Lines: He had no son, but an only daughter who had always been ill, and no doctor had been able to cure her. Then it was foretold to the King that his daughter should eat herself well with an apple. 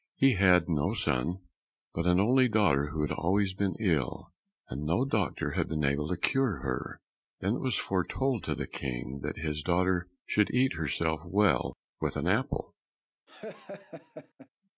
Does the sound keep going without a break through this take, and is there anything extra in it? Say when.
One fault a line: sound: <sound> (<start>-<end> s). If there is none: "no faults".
sound: laugh (13.3-14.5 s)